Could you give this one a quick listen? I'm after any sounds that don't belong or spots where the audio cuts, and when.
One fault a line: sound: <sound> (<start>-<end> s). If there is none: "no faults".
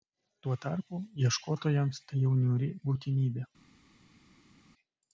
no faults